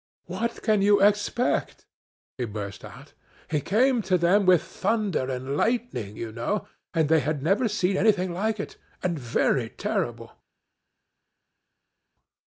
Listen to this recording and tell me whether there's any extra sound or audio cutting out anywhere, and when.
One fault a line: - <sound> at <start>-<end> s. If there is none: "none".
none